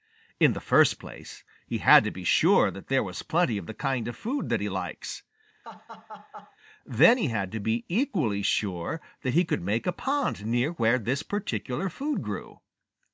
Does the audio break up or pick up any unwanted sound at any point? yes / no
yes